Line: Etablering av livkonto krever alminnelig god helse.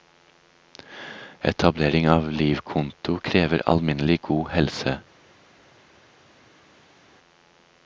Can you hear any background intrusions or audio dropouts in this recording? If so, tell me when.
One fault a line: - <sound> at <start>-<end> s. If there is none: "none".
none